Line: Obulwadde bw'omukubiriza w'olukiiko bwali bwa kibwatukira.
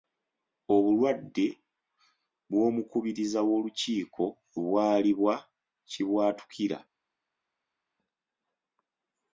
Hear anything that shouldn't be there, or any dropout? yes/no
no